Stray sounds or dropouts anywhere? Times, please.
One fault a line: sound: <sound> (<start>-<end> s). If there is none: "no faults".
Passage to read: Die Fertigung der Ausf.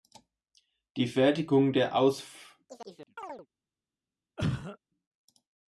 sound: chirp (2.7-3.5 s)
sound: cough (4.4-4.8 s)